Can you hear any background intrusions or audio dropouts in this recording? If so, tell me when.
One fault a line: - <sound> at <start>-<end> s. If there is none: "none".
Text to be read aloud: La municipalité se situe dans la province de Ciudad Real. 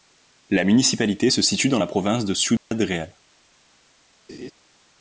- dropout at 2.6-2.7 s
- laugh at 4.3-4.5 s